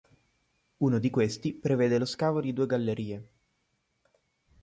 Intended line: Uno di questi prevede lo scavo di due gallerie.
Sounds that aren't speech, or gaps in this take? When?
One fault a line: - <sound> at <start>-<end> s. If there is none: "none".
none